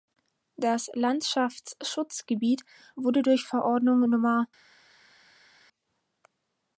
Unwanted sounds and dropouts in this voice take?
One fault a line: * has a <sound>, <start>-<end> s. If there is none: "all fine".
all fine